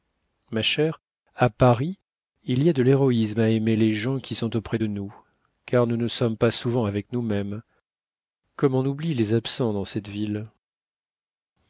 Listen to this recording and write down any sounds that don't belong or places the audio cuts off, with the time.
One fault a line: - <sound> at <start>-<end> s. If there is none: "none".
none